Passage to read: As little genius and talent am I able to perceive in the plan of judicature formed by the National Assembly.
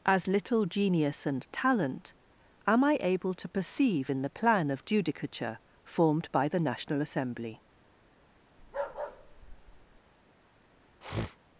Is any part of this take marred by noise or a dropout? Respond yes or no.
yes